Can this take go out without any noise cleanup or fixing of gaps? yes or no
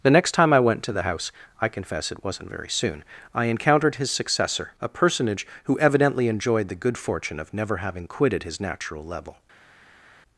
yes